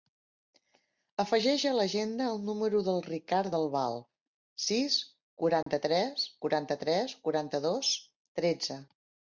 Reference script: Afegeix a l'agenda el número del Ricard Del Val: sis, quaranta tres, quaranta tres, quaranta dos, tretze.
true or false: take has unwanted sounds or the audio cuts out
true